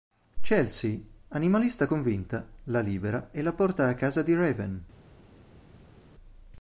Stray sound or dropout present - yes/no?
no